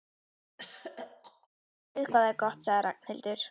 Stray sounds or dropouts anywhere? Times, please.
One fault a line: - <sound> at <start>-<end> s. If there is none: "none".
- throat clearing at 0.6-1.5 s